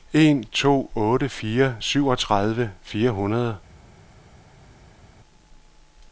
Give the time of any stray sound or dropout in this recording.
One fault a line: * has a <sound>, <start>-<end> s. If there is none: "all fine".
all fine